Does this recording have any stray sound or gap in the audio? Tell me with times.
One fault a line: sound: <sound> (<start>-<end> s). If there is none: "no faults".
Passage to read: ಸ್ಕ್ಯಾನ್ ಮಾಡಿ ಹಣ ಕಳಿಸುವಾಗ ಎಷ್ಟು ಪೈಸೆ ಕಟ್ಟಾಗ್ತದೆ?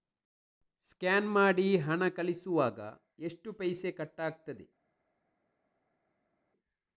no faults